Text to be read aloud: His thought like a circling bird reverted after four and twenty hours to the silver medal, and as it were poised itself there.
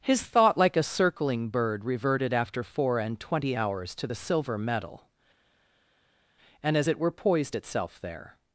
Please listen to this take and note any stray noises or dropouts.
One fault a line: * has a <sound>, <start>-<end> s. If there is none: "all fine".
all fine